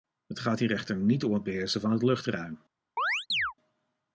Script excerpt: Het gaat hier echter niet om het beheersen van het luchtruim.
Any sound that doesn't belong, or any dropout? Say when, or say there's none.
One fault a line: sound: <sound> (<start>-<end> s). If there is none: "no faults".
sound: chirp (3.0-3.5 s)